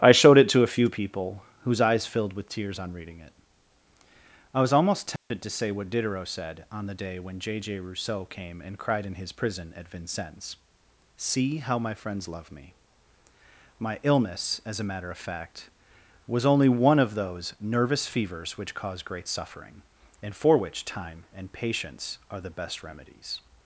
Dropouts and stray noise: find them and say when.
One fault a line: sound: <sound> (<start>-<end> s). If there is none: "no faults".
sound: dropout (5.2-5.3 s)